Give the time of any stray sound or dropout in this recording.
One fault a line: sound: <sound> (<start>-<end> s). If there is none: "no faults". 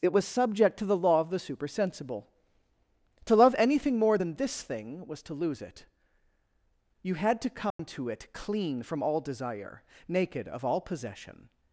sound: dropout (7.7-7.8 s)